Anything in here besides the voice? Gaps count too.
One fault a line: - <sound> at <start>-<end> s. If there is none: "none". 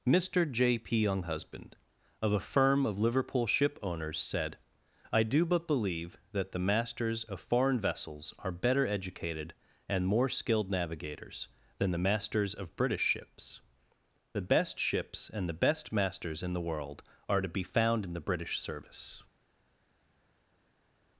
none